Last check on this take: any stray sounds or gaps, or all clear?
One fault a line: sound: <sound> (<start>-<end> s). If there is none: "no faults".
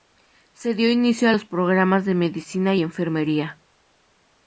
no faults